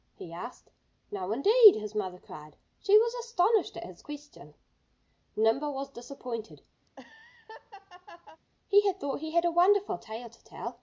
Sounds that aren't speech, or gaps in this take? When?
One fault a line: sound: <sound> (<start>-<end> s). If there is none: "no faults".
sound: laugh (6.9-8.4 s)